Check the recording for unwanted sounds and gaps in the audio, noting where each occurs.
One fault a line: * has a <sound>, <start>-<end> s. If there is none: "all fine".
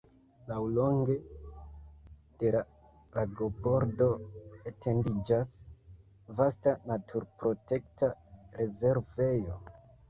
all fine